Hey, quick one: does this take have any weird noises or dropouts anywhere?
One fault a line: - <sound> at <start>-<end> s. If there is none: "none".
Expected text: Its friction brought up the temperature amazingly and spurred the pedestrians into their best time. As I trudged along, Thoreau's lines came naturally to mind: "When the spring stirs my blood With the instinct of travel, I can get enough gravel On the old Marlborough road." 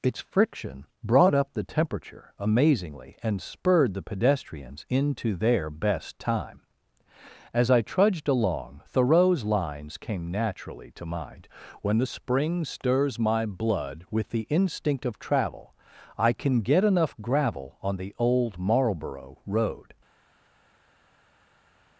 none